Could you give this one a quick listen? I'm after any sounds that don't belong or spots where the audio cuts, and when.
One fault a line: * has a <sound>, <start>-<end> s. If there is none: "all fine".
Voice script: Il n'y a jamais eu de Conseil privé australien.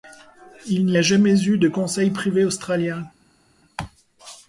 all fine